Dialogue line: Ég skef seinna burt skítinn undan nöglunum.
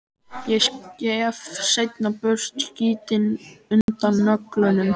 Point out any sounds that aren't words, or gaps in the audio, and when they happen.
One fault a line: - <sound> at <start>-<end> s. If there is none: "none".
- dropout at 3.8-3.9 s